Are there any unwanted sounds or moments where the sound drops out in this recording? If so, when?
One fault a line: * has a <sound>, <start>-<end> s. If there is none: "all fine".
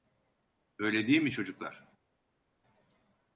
all fine